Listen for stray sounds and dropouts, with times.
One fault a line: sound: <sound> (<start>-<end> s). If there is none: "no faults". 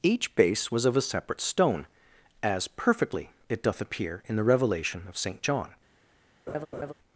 sound: laugh (6.5-6.9 s)